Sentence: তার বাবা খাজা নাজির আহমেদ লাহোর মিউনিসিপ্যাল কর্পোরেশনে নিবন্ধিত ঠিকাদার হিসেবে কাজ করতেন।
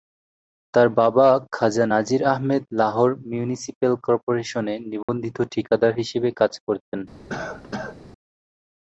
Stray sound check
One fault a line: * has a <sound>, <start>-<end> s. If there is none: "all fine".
* has a dropout, 5.0-5.1 s
* has a cough, 7.3-8.0 s